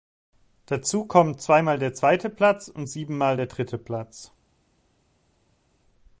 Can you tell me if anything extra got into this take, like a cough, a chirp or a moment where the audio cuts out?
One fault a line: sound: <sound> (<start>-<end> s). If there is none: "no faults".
no faults